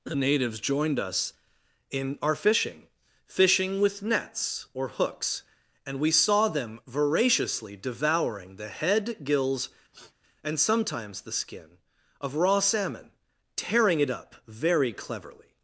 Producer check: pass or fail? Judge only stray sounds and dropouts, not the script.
fail